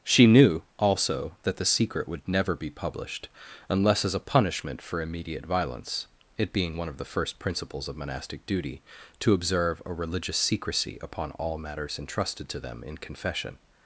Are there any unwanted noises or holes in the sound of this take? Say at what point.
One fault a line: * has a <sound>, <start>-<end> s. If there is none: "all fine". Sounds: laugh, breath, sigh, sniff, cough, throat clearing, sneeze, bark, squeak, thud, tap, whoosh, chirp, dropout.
all fine